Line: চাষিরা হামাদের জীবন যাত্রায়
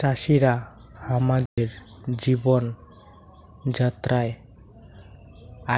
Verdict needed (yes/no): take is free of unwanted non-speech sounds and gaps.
no